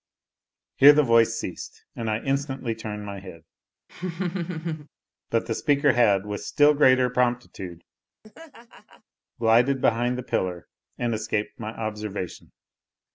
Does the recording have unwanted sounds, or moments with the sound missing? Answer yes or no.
yes